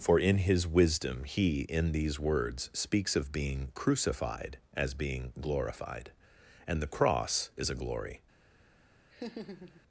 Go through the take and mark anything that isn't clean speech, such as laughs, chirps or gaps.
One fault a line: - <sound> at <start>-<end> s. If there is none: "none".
- laugh at 9.1-9.8 s